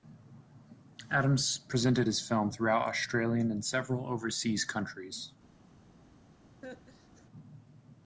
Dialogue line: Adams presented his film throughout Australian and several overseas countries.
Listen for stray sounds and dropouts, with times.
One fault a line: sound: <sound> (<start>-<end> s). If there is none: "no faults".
sound: laugh (6.6-7.3 s)